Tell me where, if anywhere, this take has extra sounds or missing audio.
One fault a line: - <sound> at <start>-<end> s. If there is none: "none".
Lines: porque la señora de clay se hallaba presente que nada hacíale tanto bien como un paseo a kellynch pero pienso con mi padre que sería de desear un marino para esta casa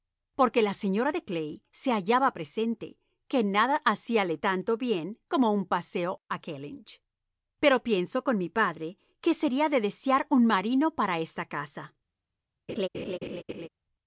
- laugh at 12.7-13.7 s